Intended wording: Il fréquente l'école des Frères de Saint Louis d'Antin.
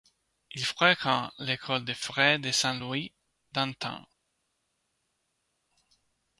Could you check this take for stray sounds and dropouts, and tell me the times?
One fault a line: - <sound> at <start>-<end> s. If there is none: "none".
none